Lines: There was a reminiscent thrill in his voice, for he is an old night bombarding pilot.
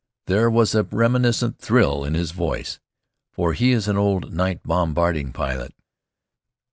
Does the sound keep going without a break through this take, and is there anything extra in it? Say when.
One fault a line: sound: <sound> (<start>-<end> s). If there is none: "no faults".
no faults